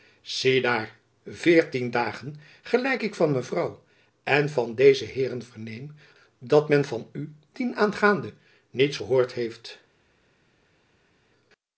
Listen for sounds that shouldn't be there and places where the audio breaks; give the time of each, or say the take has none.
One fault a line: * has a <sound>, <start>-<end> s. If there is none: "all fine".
all fine